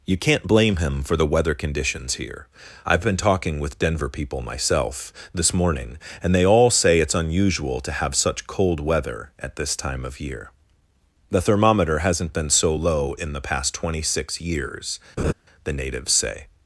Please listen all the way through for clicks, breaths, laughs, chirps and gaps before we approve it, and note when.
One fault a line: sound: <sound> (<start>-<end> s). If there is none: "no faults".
sound: laugh (15.2-15.3 s)